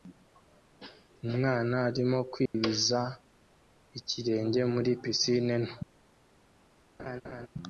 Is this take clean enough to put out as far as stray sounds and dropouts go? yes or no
no